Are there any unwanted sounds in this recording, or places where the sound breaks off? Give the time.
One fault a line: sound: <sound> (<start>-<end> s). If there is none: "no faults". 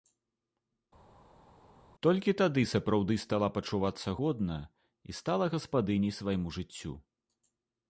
no faults